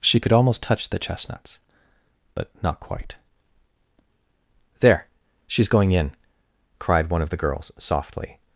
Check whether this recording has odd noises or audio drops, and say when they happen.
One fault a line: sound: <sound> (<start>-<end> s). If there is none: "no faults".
no faults